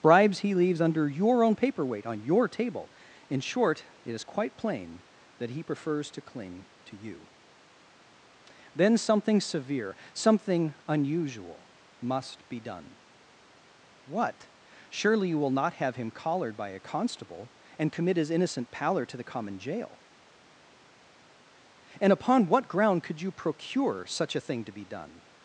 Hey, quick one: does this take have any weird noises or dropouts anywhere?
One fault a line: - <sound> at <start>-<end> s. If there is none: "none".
none